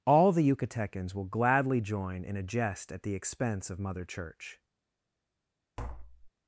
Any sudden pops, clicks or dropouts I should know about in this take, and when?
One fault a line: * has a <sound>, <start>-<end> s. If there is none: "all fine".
* has a tap, 5.8-6.3 s